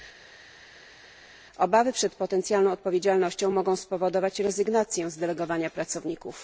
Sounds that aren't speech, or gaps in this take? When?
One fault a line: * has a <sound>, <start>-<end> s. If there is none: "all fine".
all fine